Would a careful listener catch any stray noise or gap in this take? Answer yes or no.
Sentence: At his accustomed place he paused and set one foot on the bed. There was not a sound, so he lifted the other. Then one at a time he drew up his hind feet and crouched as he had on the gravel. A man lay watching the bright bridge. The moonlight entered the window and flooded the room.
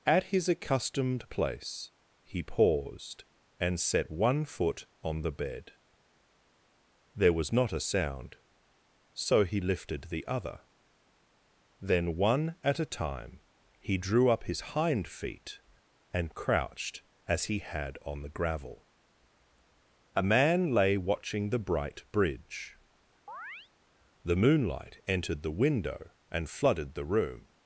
yes